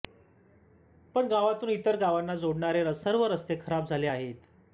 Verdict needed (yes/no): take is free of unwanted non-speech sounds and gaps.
yes